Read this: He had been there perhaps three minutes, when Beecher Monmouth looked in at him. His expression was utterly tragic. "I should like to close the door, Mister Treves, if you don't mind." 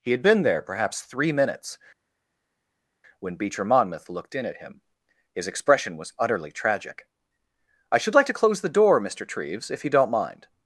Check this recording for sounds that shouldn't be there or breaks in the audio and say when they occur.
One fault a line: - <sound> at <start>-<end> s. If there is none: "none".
none